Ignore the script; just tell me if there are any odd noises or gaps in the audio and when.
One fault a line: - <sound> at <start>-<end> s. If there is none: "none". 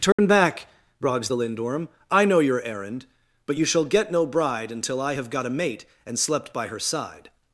- dropout at 0.1-0.2 s